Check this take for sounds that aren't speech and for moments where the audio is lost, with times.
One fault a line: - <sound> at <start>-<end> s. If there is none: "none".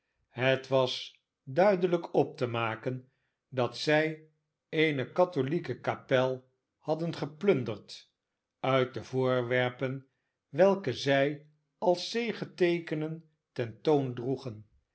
none